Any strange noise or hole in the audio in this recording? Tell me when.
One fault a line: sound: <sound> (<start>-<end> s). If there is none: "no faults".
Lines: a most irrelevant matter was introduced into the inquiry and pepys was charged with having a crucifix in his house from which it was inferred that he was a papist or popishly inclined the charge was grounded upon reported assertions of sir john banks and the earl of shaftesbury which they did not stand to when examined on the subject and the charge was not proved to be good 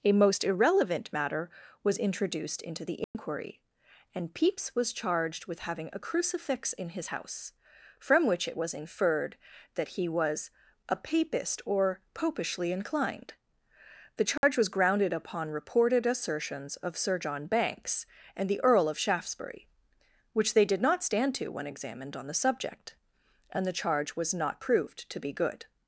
sound: dropout (3.0-3.1 s)
sound: dropout (14.4-14.4 s)